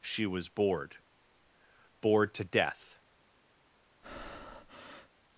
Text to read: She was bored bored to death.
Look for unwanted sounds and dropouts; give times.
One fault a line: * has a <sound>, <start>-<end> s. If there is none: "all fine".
* has a breath, 4.0-5.1 s